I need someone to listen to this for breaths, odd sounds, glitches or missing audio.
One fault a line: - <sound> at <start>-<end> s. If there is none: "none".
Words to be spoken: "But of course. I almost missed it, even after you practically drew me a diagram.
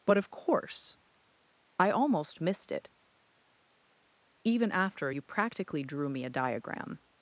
none